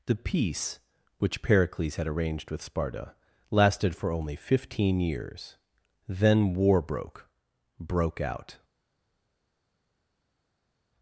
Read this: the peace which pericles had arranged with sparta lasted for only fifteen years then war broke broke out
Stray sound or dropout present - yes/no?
no